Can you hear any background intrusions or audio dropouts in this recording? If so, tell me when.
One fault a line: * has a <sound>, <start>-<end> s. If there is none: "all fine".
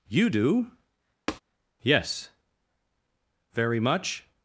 * has a tap, 1.3-1.4 s